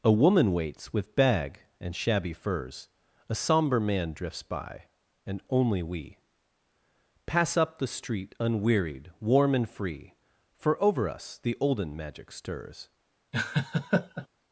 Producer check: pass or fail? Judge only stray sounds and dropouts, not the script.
fail